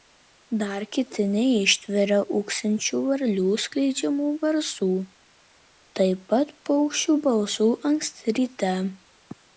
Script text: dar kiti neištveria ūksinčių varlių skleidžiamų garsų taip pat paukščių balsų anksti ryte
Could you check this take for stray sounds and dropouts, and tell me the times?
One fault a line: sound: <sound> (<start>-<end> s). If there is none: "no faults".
no faults